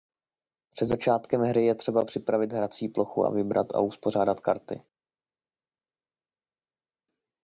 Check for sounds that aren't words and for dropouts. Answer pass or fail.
pass